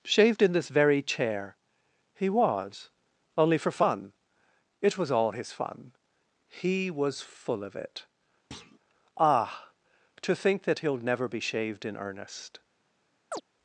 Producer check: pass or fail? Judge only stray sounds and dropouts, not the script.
fail